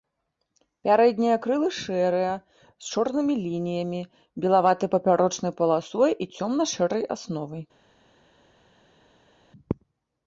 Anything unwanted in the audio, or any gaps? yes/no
no